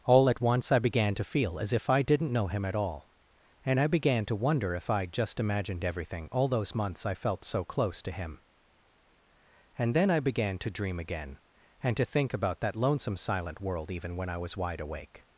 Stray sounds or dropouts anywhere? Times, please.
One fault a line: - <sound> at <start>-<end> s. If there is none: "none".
none